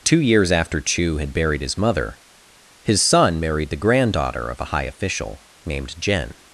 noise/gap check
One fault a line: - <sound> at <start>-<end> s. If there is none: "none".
none